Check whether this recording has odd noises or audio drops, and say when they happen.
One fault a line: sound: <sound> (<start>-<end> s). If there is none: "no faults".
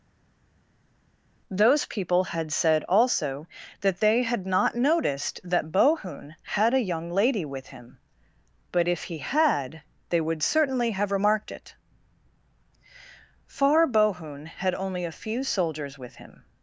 no faults